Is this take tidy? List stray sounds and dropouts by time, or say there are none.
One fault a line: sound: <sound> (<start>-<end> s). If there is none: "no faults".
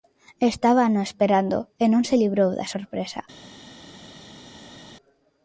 no faults